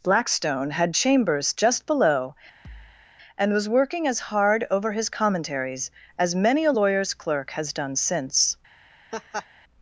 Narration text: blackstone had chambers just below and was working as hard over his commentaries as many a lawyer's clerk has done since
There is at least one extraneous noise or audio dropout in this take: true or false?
true